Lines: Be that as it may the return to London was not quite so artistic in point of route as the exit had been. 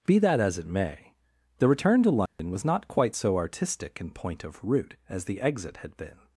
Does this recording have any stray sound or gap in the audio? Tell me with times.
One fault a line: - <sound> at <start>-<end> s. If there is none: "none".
- dropout at 2.3-2.4 s